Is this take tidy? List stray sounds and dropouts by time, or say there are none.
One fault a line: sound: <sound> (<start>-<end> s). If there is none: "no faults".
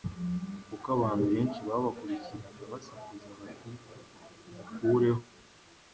no faults